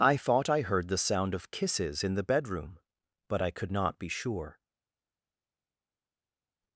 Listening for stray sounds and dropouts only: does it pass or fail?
pass